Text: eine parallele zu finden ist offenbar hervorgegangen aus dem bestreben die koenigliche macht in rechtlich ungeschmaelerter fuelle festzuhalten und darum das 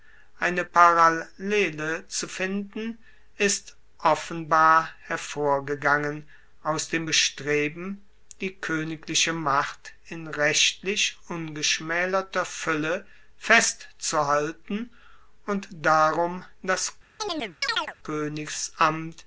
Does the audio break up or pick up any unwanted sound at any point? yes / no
yes